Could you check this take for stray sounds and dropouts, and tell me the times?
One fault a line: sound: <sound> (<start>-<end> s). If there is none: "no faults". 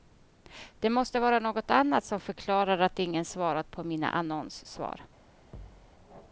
sound: thud (5.5-5.9 s)